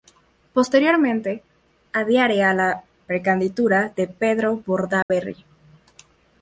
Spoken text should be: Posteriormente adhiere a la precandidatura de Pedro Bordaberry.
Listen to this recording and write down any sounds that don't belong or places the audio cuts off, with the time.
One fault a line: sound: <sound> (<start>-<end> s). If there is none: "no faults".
sound: dropout (5.0-5.1 s)